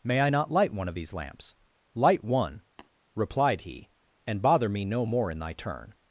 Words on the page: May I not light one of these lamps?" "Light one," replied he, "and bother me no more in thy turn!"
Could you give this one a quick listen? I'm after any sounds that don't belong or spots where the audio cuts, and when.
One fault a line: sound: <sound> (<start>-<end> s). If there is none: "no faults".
sound: tap (2.8-2.9 s)